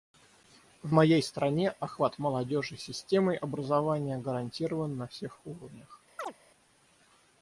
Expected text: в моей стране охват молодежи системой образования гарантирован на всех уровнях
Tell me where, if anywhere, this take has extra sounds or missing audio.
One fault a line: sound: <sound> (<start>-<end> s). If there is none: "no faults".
sound: chirp (6.2-6.3 s)